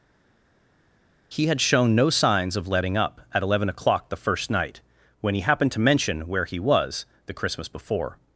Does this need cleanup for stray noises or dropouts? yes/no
no